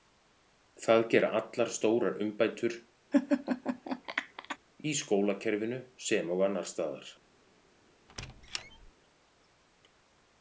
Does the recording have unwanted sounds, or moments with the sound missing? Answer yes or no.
yes